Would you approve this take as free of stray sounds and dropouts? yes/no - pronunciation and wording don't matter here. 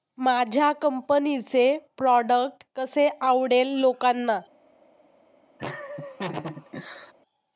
no